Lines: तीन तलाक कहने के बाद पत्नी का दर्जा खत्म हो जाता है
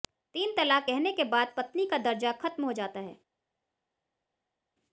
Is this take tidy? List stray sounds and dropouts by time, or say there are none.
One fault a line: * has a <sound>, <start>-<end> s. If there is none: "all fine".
all fine